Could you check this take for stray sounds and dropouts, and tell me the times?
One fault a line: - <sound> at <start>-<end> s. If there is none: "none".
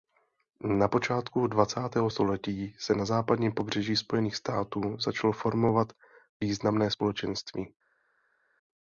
none